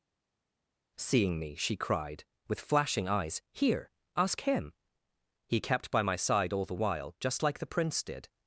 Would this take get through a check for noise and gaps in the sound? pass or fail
pass